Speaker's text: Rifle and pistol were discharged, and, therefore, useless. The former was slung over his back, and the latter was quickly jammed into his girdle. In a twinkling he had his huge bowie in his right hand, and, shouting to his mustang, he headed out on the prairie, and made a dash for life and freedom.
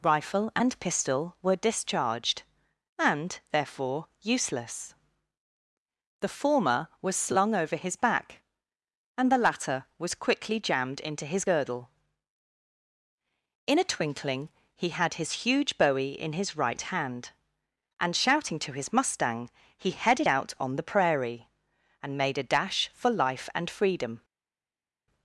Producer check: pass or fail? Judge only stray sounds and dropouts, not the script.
pass